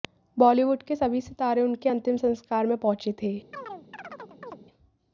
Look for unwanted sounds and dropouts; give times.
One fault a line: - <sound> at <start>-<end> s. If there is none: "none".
- chirp at 3.5-4.6 s